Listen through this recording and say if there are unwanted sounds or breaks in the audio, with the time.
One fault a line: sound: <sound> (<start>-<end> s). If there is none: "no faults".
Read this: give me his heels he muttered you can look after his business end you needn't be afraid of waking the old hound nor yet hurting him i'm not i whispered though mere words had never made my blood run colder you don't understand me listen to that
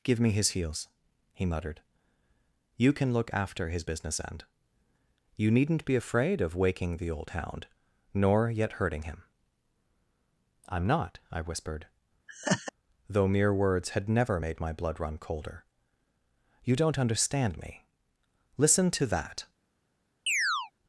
sound: laugh (12.3-12.7 s)
sound: chirp (20.3-20.7 s)